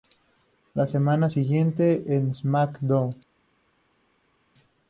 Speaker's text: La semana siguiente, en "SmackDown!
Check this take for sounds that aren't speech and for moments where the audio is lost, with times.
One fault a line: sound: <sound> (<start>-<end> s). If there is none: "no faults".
no faults